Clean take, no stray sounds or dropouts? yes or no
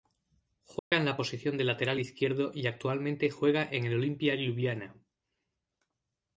no